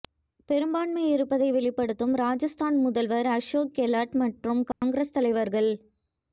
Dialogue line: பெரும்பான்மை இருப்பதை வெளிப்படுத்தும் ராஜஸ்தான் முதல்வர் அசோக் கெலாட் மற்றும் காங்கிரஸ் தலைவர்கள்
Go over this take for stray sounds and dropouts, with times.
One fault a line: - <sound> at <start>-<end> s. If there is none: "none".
- dropout at 4.7-4.8 s